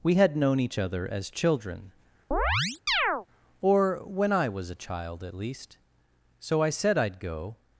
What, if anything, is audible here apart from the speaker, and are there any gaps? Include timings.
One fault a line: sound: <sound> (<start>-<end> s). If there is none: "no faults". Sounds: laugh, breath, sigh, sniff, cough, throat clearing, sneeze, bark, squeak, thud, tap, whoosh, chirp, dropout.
sound: chirp (2.3-3.3 s)